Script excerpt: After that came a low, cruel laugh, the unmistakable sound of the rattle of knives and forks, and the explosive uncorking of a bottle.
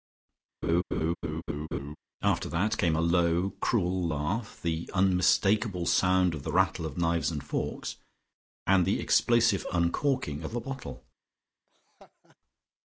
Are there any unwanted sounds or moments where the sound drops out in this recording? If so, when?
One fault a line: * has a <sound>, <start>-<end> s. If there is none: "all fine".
* has a laugh, 0.6-2.0 s
* has a laugh, 11.7-12.4 s